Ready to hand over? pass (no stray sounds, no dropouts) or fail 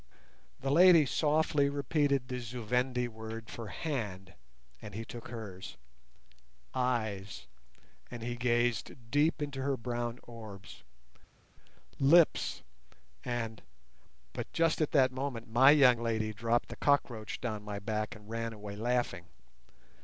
pass